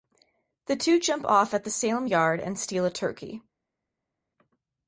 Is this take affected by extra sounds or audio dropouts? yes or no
no